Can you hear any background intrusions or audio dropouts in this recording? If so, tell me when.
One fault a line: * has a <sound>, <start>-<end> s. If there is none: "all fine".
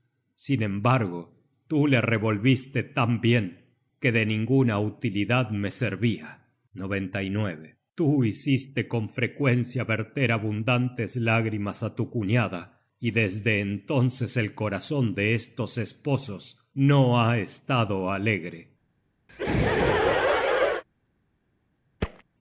* has a laugh, 19.3-20.8 s
* has a thud, 22.0-22.2 s